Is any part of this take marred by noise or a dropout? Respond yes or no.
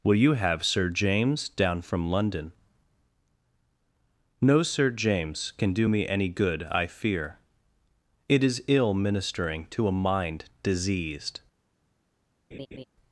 yes